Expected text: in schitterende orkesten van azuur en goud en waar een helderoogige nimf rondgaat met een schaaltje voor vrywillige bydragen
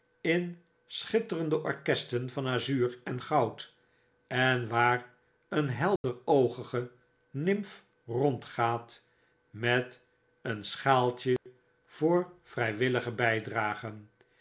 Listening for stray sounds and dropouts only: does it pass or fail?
fail